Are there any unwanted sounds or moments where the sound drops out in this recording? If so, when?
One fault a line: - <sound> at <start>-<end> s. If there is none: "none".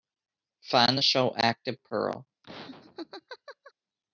- laugh at 2.4-3.7 s